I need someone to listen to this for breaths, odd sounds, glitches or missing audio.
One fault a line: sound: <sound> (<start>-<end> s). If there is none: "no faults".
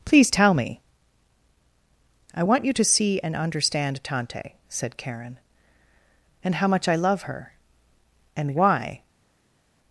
no faults